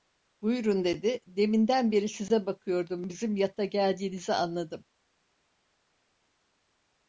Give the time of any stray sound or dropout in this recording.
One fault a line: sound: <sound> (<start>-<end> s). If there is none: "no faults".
no faults